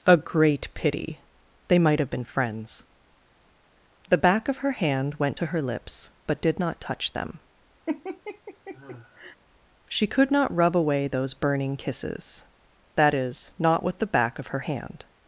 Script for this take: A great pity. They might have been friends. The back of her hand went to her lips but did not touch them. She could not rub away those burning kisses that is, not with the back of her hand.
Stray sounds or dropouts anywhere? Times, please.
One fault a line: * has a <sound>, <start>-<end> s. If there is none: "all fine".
* has a laugh, 7.9-9.4 s